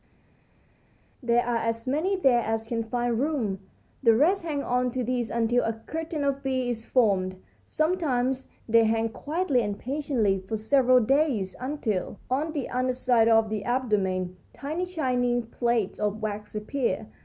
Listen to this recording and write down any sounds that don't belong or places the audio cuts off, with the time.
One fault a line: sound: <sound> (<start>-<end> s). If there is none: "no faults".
no faults